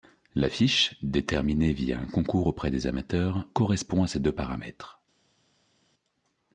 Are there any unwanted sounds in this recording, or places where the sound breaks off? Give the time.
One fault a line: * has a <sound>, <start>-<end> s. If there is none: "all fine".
all fine